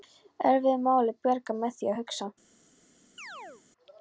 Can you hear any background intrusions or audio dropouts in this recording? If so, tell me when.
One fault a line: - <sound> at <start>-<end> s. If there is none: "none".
- chirp at 3.2-3.6 s